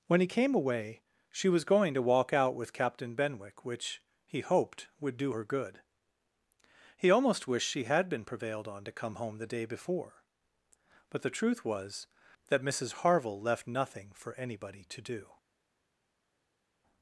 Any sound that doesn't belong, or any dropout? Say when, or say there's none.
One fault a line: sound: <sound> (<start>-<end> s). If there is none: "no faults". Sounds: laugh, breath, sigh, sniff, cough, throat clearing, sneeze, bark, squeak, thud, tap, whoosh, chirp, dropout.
no faults